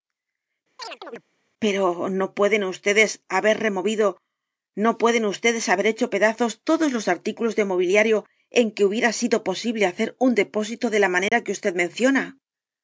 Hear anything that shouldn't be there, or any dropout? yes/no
yes